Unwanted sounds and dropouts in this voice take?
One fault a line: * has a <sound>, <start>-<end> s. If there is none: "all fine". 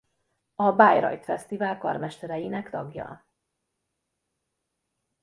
all fine